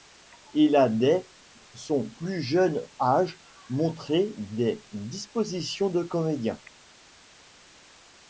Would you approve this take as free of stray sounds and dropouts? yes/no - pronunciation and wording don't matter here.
yes